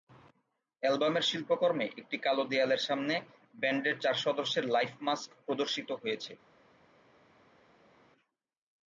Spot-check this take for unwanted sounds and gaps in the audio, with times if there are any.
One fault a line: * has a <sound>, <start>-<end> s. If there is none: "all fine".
all fine